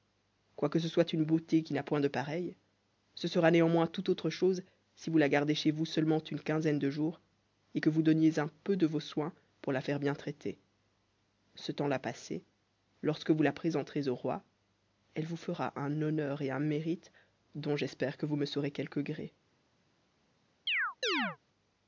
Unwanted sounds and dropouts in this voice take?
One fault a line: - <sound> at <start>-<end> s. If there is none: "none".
- chirp at 20.7-21.4 s